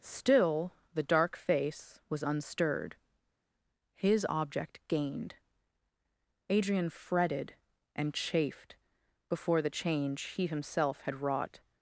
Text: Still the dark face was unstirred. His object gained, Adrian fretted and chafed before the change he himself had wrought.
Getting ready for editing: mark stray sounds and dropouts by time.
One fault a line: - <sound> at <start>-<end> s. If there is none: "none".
none